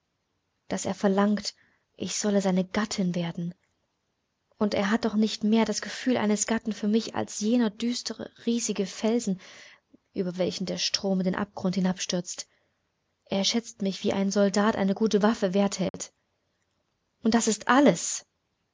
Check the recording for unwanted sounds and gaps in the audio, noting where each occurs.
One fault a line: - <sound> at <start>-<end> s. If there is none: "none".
- dropout at 15.9-15.9 s